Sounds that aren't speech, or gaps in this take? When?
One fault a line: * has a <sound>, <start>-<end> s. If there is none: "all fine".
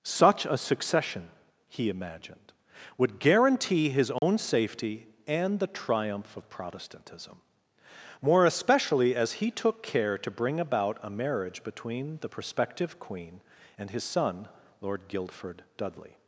* has a dropout, 4.2-4.2 s